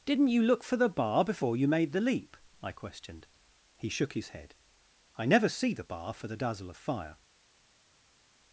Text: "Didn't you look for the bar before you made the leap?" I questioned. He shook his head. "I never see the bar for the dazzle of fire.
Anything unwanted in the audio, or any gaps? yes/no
no